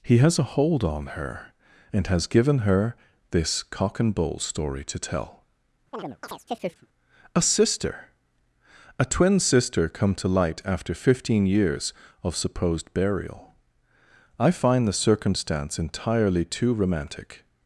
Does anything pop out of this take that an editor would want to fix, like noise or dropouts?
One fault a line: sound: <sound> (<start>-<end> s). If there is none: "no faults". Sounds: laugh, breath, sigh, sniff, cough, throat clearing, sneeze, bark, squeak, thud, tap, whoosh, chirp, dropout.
sound: chirp (5.9-6.9 s)